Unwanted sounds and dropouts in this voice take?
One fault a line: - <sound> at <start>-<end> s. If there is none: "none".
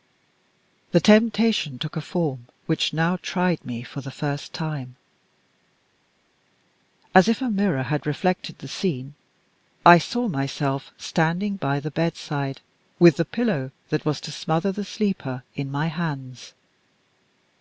none